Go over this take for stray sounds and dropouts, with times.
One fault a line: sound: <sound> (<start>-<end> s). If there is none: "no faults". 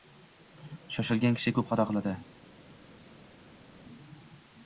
no faults